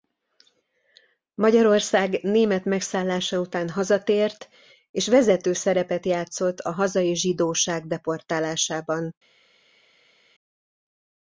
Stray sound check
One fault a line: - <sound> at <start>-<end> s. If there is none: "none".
none